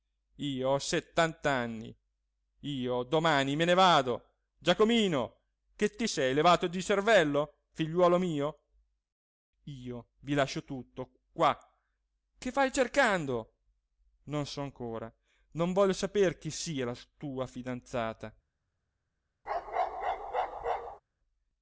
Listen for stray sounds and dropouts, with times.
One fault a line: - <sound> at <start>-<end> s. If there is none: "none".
- bark at 19.5-21.0 s